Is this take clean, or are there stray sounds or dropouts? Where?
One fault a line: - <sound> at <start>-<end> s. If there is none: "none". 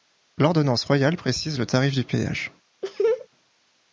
- laugh at 2.8-3.3 s